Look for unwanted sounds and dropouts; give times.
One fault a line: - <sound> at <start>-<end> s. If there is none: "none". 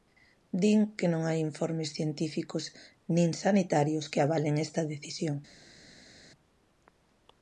none